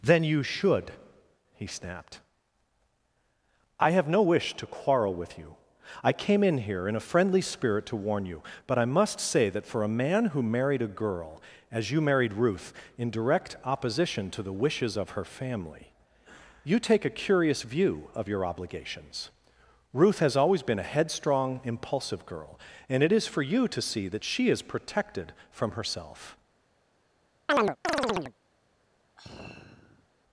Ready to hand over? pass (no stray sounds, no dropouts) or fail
fail